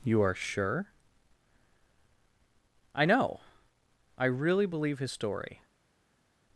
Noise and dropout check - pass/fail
pass